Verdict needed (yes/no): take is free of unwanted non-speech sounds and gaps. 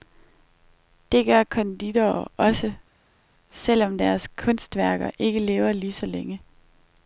yes